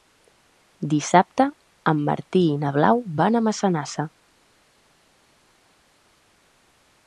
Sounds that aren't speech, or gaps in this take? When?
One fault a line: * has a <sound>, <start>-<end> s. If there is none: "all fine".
all fine